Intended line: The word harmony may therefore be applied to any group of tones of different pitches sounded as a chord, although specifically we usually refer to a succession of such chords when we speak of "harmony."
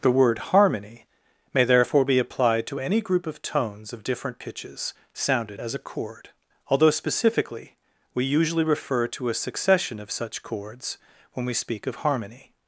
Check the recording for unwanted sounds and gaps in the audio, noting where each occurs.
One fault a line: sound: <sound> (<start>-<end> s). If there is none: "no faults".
no faults